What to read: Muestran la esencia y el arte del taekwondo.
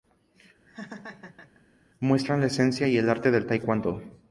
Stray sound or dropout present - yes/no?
yes